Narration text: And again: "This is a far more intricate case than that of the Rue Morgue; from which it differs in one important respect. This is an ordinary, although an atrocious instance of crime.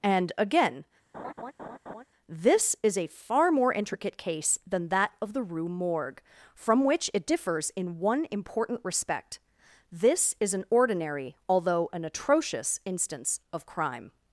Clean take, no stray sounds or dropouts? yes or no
no